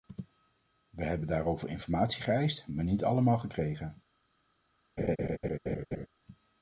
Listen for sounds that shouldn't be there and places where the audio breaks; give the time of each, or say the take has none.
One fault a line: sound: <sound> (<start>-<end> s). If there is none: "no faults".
sound: laugh (5.0-6.1 s)